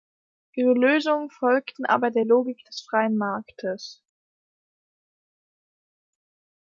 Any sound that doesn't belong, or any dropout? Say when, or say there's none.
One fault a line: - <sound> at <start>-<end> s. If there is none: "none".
none